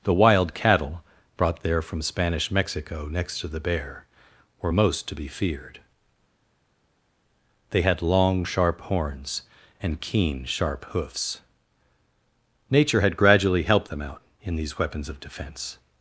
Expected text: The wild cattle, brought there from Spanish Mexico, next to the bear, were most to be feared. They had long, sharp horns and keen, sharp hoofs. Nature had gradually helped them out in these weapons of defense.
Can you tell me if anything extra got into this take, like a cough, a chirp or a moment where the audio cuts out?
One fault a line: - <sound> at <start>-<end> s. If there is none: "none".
none